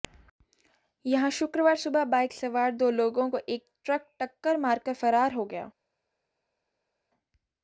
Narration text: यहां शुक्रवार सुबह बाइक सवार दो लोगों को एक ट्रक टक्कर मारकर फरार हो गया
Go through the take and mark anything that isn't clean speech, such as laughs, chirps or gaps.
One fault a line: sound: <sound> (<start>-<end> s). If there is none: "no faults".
no faults